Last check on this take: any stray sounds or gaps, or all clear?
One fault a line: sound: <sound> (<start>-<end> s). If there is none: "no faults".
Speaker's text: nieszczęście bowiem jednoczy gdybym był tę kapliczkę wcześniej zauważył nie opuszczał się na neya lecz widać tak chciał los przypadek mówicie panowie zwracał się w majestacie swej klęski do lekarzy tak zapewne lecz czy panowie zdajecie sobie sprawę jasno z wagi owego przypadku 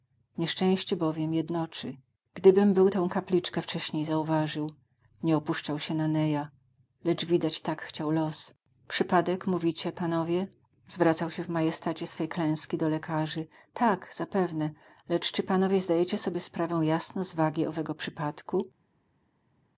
no faults